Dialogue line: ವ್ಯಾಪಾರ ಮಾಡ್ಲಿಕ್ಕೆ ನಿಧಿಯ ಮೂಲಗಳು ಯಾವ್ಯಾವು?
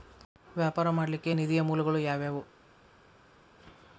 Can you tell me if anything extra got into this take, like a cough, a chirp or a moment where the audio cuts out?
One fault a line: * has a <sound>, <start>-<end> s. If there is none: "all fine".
all fine